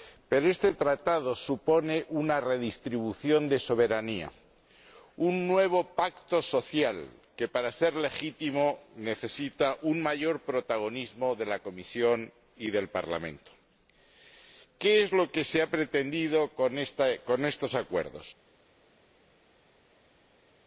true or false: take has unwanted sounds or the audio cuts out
false